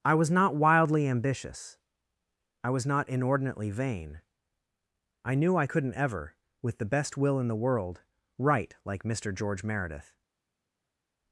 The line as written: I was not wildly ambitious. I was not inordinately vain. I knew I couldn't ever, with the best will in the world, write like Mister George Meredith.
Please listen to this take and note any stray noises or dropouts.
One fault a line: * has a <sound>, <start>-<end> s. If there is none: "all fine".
all fine